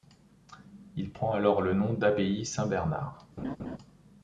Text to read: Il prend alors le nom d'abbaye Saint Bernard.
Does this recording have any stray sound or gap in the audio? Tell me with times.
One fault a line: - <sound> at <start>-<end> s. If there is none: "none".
- laugh at 3.4-3.8 s